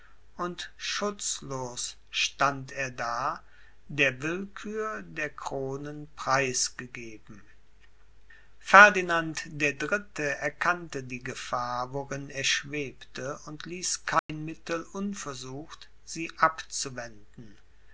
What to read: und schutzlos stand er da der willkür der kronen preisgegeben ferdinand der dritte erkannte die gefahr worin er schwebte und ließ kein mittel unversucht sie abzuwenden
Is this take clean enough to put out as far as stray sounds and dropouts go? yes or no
no